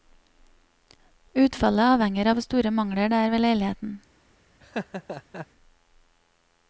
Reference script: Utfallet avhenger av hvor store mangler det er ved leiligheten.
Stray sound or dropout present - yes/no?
yes